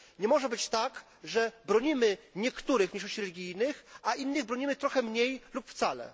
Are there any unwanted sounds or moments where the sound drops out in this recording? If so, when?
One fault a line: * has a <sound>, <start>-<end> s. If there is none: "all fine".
all fine